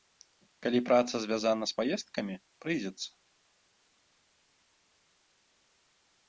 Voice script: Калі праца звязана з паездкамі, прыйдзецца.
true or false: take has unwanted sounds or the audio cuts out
false